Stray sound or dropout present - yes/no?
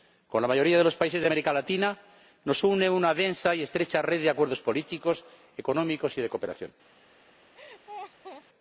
yes